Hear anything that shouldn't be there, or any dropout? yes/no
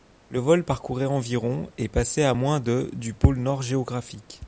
no